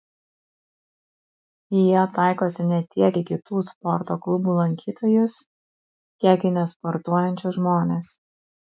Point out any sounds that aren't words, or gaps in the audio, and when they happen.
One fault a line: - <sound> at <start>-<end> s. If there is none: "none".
none